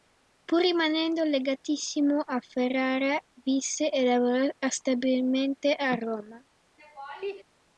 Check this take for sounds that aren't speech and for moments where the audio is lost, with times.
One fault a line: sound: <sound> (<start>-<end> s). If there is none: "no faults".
sound: laugh (6.8-7.4 s)